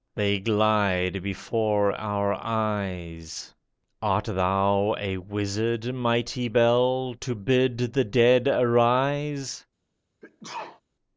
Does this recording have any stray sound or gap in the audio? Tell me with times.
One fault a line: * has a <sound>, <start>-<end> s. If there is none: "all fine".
* has a sneeze, 10.2-10.8 s